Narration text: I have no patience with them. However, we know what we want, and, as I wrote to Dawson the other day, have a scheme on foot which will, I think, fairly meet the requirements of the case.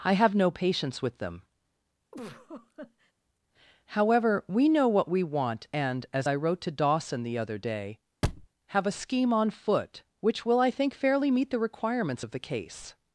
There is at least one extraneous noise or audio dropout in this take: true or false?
true